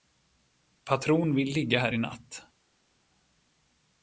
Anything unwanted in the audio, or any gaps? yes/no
no